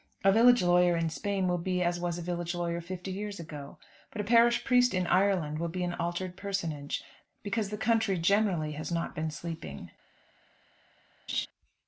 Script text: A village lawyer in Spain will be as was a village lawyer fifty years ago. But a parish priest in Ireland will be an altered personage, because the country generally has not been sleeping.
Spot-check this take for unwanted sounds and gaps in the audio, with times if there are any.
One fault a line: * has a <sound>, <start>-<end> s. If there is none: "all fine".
* has a laugh, 11.3-11.5 s